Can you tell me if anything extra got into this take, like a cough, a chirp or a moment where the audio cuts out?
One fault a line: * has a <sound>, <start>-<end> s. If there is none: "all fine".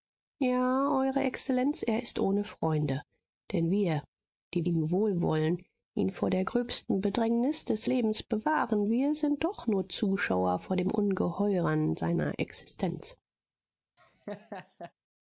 * has a laugh, 14.0-14.9 s